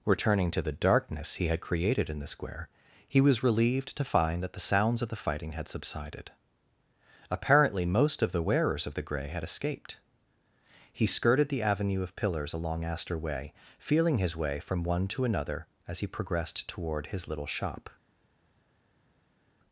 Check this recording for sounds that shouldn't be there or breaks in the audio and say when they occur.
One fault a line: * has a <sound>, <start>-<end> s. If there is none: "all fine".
all fine